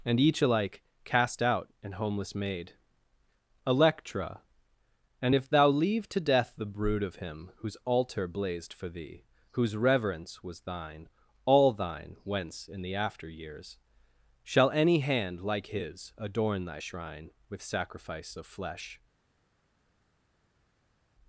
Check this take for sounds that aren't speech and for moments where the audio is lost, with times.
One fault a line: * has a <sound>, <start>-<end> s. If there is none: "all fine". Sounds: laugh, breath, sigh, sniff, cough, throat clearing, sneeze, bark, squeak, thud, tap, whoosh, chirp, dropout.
all fine